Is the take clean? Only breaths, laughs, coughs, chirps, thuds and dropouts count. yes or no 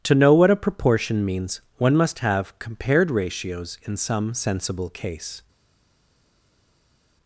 yes